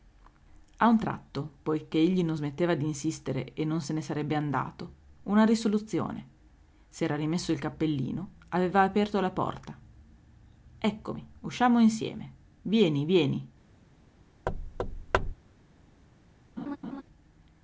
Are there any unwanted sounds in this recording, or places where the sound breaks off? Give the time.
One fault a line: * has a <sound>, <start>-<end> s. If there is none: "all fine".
* has a thud, 14.5-15.3 s
* has a laugh, 16.6-17.0 s